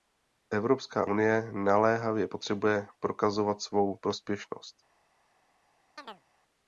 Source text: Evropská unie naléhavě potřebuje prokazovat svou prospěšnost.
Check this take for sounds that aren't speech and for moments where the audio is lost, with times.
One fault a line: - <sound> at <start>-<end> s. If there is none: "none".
- chirp at 6.0-6.2 s